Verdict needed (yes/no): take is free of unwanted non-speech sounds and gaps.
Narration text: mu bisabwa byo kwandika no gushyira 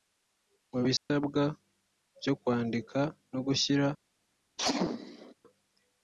no